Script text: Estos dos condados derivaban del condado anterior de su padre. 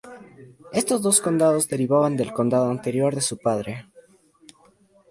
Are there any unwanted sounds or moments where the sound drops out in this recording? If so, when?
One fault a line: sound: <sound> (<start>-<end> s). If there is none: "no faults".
no faults